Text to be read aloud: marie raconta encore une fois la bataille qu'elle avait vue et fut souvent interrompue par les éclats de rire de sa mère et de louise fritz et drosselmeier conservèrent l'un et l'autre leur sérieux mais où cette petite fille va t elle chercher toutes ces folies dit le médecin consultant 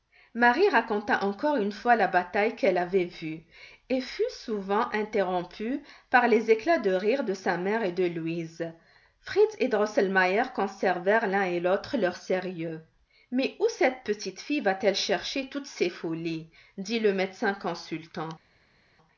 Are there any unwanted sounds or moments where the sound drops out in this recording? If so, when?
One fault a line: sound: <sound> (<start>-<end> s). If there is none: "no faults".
no faults